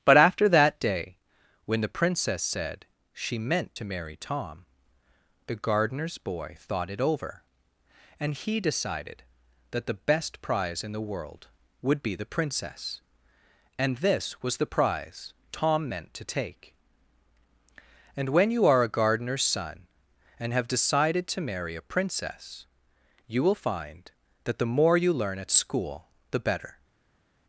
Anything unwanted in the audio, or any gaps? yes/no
no